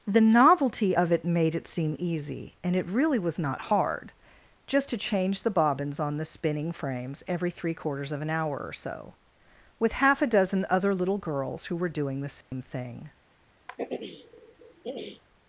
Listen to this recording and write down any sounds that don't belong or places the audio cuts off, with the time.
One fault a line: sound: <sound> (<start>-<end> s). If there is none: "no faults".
sound: dropout (12.4-12.5 s)
sound: throat clearing (13.7-15.2 s)